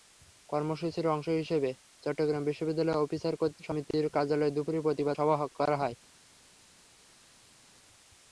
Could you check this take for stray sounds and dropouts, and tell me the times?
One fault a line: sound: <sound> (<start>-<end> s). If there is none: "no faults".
no faults